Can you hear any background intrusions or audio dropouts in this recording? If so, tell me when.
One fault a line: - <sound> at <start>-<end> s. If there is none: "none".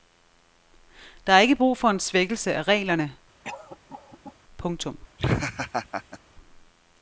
- cough at 3.4-4.4 s
- laugh at 5.2-6.2 s